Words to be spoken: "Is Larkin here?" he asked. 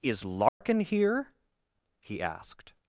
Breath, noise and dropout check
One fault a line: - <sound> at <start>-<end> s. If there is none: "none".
- dropout at 0.5-0.6 s